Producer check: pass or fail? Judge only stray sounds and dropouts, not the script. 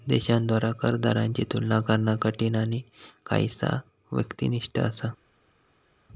pass